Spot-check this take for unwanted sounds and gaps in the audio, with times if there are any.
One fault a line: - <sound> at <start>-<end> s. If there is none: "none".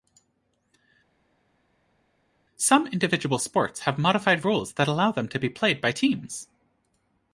none